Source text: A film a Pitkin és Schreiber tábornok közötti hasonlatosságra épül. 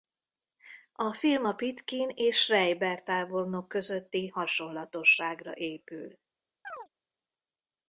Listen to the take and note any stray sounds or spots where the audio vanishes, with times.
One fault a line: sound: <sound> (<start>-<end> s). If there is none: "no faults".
sound: chirp (6.6-6.9 s)